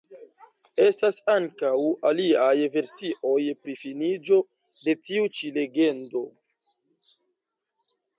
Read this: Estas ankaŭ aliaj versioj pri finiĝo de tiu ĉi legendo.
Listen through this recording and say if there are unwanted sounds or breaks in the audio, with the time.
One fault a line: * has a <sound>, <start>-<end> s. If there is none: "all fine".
all fine